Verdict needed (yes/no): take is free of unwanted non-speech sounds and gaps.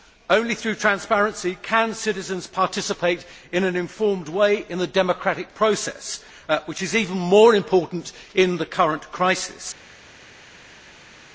yes